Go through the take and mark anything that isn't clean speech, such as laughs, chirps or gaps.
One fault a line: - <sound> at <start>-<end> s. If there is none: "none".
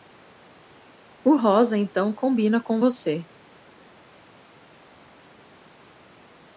none